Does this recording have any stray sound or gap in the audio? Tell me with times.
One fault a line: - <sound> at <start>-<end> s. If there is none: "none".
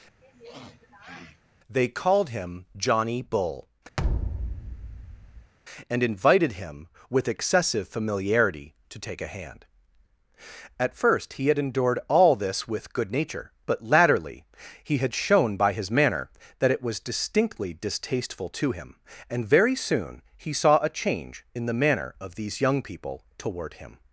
- sniff at 0.2-1.4 s
- thud at 4.0-5.5 s